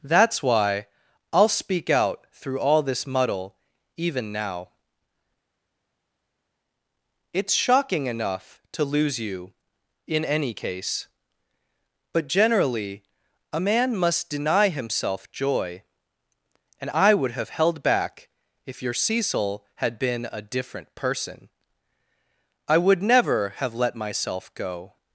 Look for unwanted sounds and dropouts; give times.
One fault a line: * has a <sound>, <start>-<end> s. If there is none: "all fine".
all fine